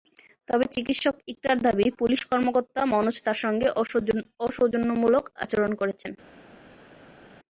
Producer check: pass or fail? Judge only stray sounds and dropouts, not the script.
pass